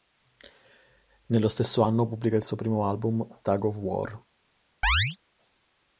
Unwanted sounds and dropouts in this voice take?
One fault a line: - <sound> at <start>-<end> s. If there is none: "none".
- chirp at 4.8-5.2 s